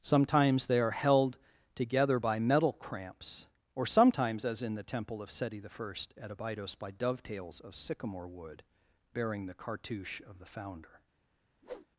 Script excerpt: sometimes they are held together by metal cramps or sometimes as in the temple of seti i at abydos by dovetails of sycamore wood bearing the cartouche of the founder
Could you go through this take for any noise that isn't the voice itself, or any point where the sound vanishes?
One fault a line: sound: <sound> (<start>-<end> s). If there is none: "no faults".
sound: whoosh (11.6-11.9 s)